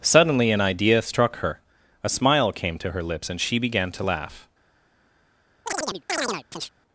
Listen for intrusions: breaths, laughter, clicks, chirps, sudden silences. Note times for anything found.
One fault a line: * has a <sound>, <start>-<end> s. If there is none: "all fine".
* has a chirp, 5.7-6.7 s